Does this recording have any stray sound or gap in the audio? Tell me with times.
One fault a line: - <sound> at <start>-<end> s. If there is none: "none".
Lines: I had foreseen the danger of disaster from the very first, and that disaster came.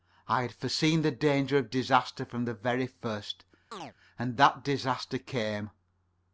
- chirp at 3.7-3.9 s